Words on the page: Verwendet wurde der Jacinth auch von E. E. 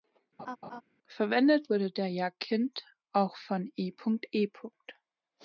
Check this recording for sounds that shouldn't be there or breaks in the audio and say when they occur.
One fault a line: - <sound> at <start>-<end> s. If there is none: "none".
- laugh at 0.4-0.8 s